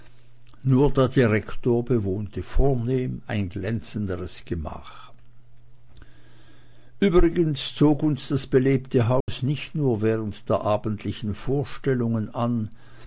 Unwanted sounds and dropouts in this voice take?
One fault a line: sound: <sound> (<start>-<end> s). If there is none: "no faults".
sound: dropout (9.2-9.3 s)